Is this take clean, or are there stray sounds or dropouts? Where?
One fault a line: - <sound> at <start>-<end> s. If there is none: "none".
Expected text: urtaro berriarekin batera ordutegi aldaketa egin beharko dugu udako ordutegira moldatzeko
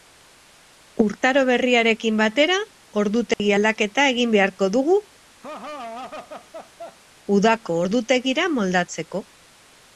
- dropout at 3.3-3.4 s
- laugh at 5.4-7.0 s